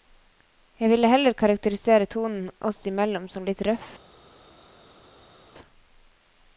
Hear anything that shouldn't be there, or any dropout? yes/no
no